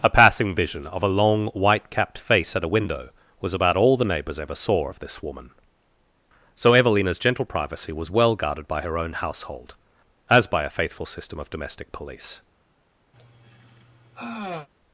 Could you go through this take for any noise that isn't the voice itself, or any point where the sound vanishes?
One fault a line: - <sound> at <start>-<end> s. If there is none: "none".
- sigh at 13.1-14.7 s